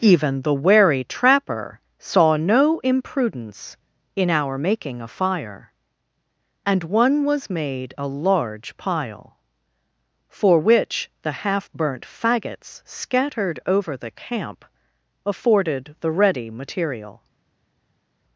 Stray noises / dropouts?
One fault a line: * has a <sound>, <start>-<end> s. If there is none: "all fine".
all fine